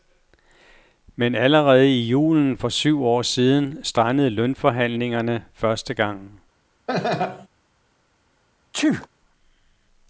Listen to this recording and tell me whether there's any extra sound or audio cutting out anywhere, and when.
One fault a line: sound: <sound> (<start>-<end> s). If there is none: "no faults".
sound: laugh (6.9-7.5 s)
sound: sneeze (8.7-9.1 s)